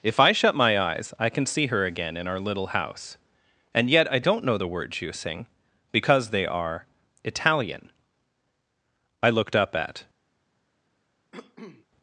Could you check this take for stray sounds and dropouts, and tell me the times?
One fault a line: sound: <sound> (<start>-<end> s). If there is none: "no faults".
sound: cough (11.3-11.9 s)